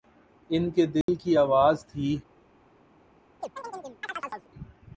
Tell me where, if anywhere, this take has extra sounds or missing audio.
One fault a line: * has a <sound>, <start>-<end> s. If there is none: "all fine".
* has a dropout, 1.0-1.1 s
* has a chirp, 3.4-4.5 s